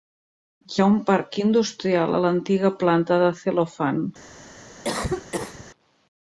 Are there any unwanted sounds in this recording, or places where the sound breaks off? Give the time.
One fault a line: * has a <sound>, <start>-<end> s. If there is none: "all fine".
* has a cough, 4.8-5.6 s